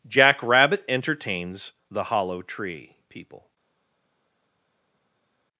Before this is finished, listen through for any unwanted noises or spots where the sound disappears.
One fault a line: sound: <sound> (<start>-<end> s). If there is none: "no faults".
no faults